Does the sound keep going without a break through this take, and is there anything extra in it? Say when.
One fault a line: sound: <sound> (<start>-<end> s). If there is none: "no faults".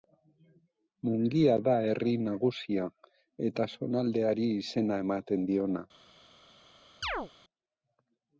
sound: chirp (7.0-7.3 s)